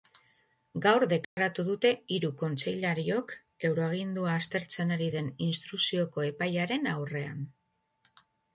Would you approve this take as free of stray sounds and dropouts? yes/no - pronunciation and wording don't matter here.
no